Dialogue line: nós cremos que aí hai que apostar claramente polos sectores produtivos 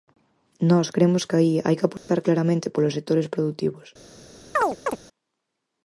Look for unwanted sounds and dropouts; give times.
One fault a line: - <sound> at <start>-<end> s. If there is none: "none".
- dropout at 2.0-2.1 s
- chirp at 4.6-5.0 s